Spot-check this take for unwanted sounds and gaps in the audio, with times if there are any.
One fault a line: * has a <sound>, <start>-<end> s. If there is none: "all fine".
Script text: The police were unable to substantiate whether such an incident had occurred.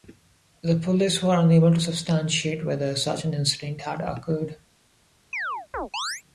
* has a chirp, 5.3-6.2 s